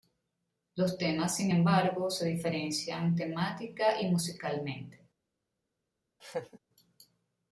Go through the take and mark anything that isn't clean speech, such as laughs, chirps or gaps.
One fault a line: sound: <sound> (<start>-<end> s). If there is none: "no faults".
sound: laugh (6.2-6.6 s)